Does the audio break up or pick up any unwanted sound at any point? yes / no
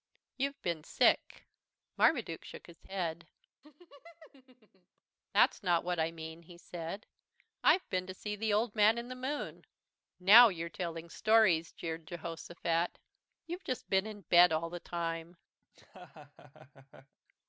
yes